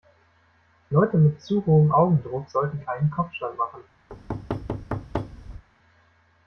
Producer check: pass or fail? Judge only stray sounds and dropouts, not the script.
fail